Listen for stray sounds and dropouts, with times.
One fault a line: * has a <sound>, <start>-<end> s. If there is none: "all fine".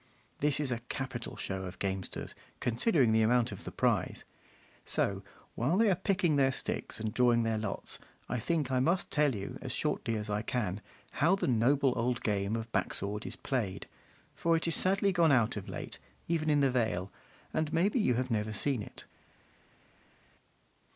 all fine